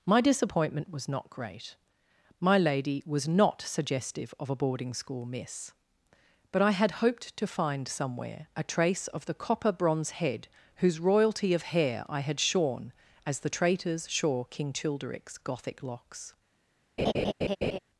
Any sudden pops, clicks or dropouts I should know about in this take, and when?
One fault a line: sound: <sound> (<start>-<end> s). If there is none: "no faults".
sound: laugh (17.0-17.8 s)